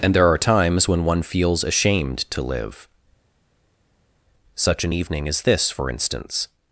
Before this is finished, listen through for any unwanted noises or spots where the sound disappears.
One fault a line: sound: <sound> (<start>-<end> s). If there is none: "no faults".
no faults